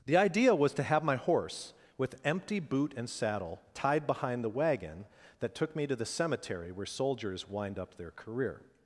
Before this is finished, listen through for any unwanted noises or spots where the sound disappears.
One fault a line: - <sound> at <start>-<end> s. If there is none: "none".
none